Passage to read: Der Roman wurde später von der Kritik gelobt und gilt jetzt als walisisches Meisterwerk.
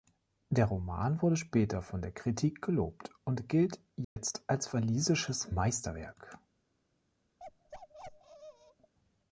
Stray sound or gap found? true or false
true